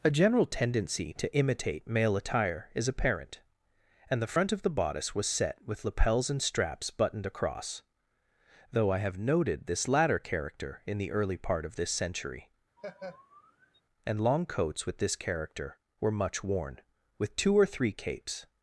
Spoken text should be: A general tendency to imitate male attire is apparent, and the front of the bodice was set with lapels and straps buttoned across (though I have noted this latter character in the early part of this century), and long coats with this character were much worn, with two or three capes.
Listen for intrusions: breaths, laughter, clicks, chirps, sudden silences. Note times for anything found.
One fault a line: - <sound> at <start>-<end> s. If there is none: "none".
- laugh at 12.8-13.8 s